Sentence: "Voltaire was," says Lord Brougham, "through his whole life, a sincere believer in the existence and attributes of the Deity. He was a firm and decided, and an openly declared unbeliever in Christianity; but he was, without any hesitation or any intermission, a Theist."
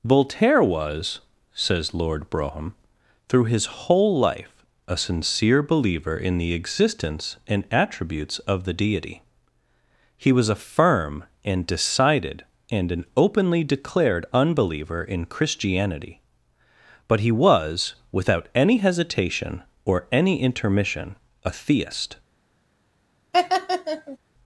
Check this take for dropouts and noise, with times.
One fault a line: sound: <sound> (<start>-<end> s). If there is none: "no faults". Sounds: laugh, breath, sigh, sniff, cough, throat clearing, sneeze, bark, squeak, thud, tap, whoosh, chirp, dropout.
sound: laugh (23.3-24.2 s)